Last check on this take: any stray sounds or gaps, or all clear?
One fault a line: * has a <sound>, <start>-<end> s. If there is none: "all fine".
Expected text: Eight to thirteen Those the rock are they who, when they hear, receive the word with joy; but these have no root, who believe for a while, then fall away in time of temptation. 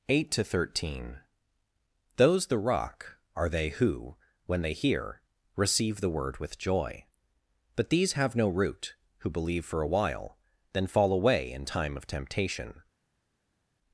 all fine